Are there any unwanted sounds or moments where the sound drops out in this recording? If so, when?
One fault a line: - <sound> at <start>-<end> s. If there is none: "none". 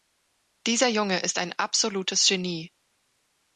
none